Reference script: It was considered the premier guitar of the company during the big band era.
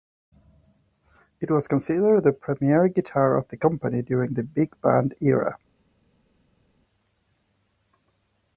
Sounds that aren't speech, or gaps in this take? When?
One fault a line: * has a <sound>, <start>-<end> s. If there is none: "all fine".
all fine